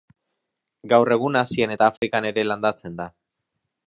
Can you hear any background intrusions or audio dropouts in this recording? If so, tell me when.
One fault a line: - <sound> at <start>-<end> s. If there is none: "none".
- dropout at 2.0-2.0 s